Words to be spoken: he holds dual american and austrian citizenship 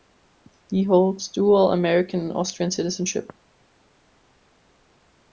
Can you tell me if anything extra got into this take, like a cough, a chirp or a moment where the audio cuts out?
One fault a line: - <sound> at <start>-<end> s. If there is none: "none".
none